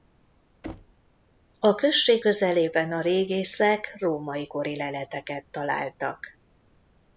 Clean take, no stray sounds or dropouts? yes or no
no